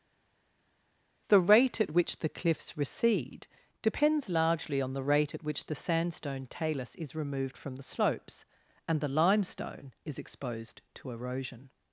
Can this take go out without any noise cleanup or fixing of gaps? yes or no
yes